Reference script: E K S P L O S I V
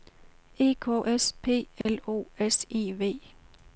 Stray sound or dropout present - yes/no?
yes